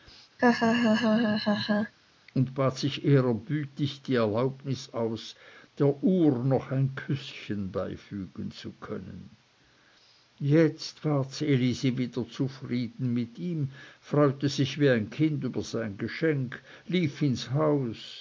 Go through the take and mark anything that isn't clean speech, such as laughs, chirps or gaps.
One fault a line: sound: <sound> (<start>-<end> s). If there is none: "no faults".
sound: laugh (0.4-1.9 s)